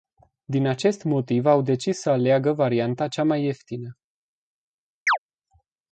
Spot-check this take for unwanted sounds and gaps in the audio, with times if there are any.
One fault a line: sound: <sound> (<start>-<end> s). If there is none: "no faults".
sound: chirp (5.1-5.2 s)